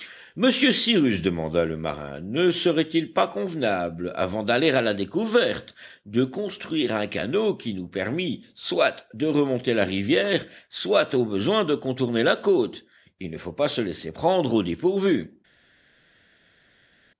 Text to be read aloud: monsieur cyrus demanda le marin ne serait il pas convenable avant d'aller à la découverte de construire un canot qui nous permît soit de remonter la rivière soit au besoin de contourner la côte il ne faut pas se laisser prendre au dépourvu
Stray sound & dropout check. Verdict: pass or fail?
pass